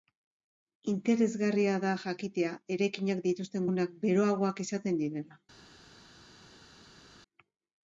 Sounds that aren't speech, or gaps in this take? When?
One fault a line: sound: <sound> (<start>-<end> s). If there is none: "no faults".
no faults